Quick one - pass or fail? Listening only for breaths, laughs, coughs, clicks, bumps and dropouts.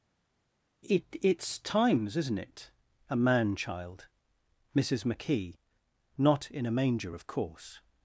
pass